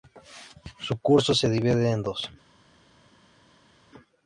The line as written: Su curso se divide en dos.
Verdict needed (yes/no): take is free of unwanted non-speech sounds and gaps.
yes